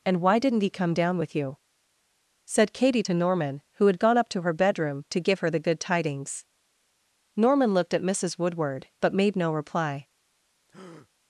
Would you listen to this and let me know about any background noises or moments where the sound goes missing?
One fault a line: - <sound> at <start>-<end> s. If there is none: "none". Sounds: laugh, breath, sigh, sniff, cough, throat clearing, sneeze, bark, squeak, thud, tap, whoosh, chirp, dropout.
- breath at 10.7-11.1 s